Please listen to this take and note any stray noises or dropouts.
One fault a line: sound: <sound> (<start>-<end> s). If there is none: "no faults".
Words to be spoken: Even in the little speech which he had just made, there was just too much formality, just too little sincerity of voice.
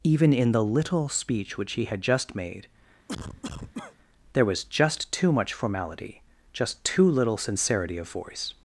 sound: cough (3.1-4.0 s)